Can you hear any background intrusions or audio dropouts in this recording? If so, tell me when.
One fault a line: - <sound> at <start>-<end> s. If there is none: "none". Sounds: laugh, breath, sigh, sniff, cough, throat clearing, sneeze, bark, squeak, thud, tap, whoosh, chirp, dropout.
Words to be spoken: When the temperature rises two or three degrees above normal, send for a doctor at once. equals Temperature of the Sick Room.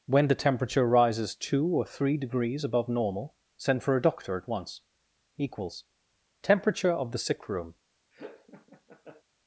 - laugh at 8.1-9.2 s